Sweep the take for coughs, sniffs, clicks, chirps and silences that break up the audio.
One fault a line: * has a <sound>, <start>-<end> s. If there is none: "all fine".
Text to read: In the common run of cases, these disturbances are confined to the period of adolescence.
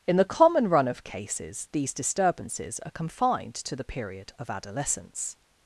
all fine